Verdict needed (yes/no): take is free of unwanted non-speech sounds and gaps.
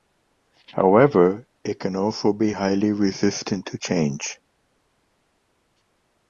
yes